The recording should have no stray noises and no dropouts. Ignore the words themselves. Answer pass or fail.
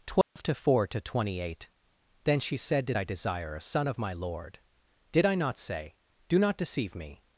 fail